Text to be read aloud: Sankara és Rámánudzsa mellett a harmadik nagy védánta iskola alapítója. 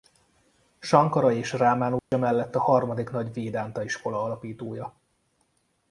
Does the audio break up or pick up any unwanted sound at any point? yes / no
yes